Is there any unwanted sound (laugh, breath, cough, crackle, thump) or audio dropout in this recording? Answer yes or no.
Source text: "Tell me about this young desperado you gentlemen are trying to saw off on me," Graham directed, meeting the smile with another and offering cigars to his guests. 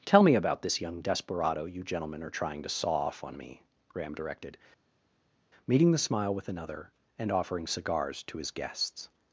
no